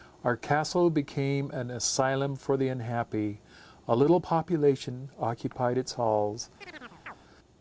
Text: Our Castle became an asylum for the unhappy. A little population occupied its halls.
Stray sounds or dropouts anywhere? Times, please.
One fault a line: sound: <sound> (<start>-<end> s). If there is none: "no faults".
sound: chirp (6.6-7.2 s)